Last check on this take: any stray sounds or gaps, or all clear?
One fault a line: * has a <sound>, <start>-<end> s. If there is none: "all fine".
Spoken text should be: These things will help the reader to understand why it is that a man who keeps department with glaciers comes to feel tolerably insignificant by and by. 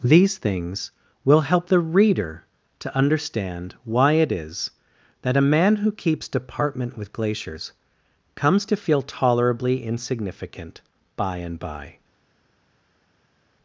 all fine